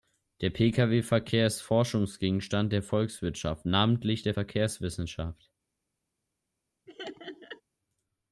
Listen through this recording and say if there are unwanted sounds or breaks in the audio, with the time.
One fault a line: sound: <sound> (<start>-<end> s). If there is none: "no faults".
sound: laugh (6.9-7.6 s)